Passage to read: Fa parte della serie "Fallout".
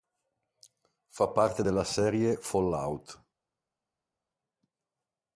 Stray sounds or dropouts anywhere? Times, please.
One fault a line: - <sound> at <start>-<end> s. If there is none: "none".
none